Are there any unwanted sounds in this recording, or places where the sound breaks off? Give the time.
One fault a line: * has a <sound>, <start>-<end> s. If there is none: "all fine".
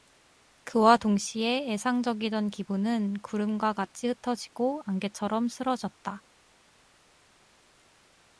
all fine